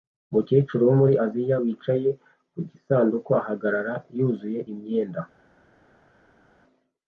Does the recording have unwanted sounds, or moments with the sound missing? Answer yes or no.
no